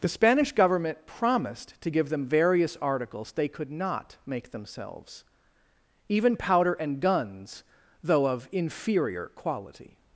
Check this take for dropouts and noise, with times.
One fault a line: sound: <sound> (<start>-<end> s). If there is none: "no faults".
no faults